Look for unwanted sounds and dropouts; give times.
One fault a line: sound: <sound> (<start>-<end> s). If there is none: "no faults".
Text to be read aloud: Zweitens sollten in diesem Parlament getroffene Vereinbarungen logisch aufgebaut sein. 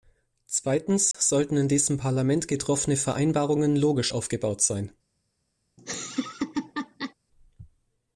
sound: dropout (1.1-1.1 s)
sound: laugh (5.8-7.1 s)